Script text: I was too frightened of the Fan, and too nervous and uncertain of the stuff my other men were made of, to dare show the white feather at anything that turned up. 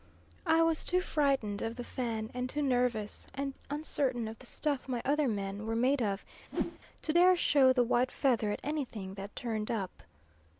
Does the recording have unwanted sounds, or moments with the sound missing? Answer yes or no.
yes